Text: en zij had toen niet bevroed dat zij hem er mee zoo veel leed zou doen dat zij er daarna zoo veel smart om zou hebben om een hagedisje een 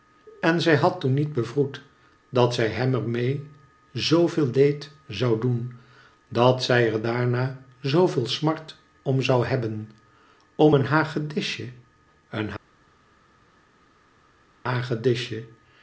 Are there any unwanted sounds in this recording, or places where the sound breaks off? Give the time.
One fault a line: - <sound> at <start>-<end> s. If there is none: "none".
none